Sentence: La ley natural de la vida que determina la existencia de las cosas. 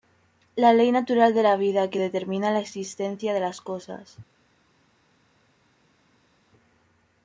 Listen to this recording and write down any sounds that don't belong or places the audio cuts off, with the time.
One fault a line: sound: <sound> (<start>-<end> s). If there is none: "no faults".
no faults